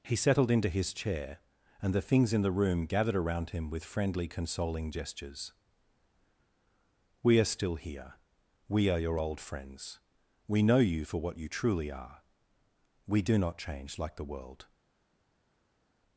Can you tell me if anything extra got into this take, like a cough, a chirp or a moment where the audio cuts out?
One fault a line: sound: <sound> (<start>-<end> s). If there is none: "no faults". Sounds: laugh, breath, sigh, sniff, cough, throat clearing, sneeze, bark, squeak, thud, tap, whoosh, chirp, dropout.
no faults